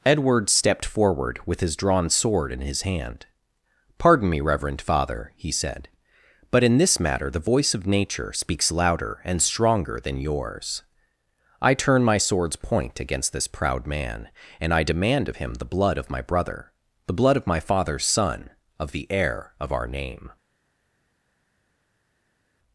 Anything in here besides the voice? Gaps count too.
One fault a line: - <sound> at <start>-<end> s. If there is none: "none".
none